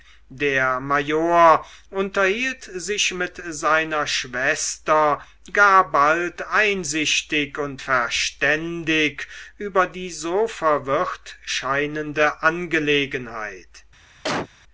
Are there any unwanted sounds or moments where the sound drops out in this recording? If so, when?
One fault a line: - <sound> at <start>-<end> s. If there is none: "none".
- cough at 14.2-14.5 s